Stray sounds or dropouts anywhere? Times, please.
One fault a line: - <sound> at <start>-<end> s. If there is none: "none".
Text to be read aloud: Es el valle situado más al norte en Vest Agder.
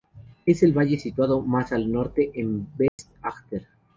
- dropout at 2.9-3.0 s